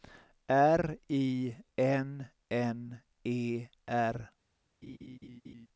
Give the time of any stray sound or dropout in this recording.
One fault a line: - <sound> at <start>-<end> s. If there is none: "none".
- laugh at 4.8-5.7 s